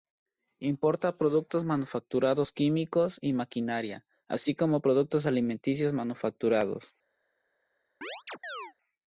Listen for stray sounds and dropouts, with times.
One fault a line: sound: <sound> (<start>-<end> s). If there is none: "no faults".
sound: chirp (8.0-8.7 s)